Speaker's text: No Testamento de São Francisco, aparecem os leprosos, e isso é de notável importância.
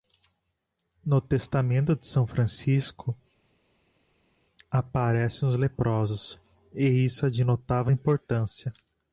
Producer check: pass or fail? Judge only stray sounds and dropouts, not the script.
pass